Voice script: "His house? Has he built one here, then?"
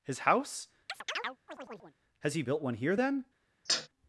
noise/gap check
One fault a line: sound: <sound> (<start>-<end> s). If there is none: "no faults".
sound: chirp (0.9-2.0 s)
sound: sneeze (3.7-3.9 s)